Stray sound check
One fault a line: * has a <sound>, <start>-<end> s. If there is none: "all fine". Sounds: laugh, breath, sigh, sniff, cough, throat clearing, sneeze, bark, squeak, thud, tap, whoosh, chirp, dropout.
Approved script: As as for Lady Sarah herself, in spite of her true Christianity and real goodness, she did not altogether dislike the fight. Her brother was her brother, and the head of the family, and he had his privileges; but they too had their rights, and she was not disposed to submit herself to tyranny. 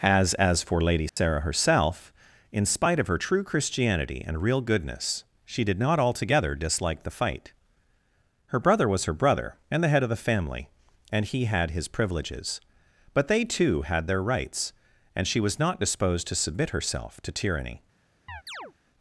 * has a dropout, 1.1-1.2 s
* has a chirp, 18.3-18.7 s